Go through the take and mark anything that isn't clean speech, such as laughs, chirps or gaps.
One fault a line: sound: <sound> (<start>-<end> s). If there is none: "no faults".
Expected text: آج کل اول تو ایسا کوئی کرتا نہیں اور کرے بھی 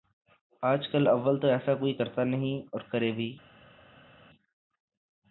no faults